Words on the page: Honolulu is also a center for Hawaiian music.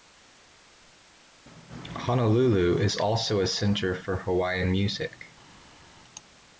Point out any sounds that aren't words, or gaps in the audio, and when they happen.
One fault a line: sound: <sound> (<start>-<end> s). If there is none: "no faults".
no faults